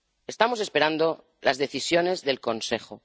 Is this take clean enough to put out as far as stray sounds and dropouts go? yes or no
yes